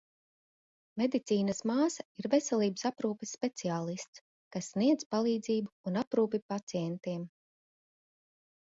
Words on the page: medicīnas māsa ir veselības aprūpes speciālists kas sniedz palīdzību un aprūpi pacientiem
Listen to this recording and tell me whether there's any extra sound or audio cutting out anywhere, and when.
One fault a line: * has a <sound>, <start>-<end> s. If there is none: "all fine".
all fine